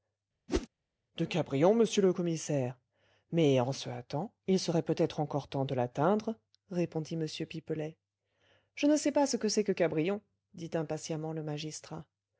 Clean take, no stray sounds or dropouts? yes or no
no